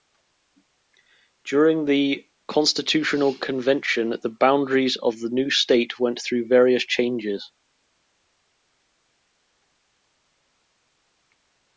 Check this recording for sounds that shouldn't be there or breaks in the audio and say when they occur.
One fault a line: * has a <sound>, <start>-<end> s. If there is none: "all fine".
all fine